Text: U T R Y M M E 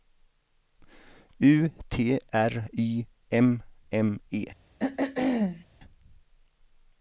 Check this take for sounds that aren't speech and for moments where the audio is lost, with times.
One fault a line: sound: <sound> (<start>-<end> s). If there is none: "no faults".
sound: throat clearing (4.8-5.7 s)